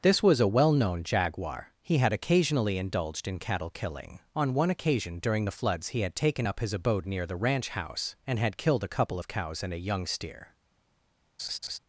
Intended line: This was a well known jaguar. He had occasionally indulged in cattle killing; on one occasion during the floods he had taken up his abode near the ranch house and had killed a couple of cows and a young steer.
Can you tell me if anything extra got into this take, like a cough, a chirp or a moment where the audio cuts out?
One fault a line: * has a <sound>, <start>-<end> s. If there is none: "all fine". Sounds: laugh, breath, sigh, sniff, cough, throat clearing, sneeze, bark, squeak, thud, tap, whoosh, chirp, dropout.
* has a laugh, 11.4-11.8 s